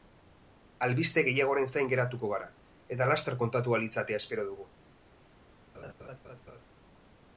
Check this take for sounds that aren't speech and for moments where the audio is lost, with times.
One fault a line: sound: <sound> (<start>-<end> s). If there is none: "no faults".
sound: laugh (5.7-6.6 s)